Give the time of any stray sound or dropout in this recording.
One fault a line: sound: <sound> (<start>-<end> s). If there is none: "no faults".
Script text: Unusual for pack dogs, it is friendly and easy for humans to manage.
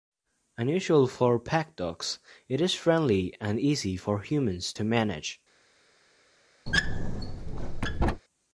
sound: squeak (6.7-8.2 s)